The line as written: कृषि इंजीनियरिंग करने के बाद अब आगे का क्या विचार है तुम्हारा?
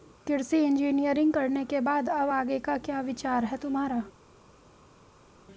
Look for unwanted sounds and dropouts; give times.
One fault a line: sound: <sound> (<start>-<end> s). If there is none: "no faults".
no faults